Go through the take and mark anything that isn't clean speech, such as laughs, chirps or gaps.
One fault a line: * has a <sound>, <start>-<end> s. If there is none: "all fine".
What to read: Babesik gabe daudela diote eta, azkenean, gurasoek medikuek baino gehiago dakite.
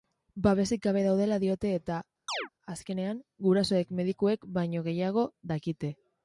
* has a chirp, 2.3-2.5 s